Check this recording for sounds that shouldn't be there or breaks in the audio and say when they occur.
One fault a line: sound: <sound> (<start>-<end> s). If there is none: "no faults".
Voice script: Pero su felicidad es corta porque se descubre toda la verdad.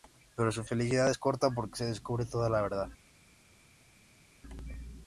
no faults